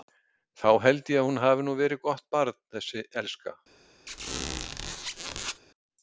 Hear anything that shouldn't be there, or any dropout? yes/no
yes